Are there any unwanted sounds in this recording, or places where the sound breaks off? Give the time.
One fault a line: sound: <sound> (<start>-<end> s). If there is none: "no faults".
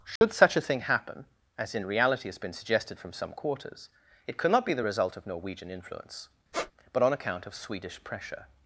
sound: dropout (0.2-0.2 s)
sound: squeak (6.5-6.7 s)